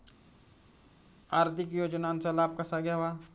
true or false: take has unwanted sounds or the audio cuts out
false